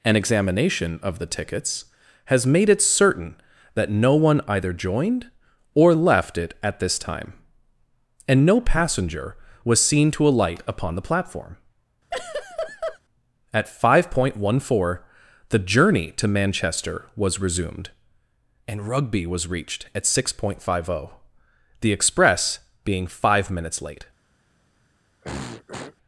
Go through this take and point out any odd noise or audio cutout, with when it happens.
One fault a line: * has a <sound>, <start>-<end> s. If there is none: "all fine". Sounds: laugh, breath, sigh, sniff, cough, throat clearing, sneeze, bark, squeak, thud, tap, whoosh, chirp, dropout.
* has a laugh, 12.1-13.0 s
* has a throat clearing, 25.2-26.0 s